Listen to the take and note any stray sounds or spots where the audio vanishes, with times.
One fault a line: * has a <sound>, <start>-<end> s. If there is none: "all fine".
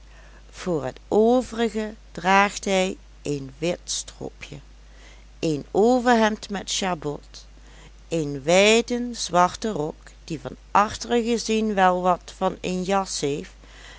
all fine